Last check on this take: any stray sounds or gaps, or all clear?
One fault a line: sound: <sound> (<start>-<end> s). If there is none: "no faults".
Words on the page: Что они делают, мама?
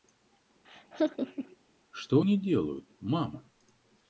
sound: laugh (0.6-1.6 s)